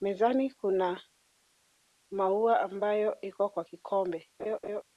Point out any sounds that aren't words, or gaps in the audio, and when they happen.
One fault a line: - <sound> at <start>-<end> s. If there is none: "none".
- laugh at 4.4-4.8 s